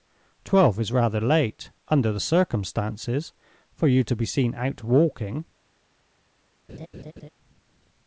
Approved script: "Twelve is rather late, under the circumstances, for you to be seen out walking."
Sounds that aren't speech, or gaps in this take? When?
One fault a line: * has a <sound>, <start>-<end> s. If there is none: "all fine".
* has a laugh, 6.7-7.3 s